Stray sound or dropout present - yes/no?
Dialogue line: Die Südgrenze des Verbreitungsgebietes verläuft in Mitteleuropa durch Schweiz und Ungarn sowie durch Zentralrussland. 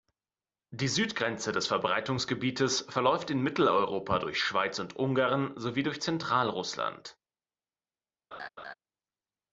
yes